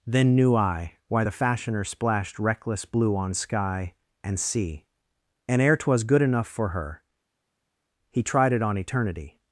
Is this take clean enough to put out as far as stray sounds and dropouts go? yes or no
yes